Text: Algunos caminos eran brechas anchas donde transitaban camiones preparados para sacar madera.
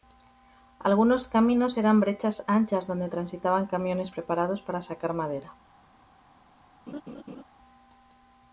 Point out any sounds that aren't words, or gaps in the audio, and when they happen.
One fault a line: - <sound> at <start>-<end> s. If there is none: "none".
- laugh at 6.9-7.4 s